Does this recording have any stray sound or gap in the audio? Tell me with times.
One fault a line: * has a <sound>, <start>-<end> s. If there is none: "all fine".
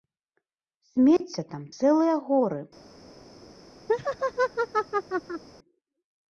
* has a dropout, 1.2-1.2 s
* has a laugh, 3.9-5.4 s